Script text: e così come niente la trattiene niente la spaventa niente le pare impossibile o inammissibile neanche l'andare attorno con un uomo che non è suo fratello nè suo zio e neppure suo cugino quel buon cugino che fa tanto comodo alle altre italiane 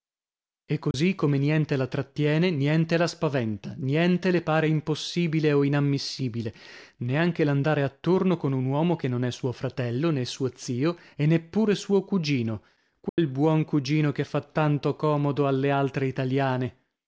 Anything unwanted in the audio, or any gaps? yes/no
yes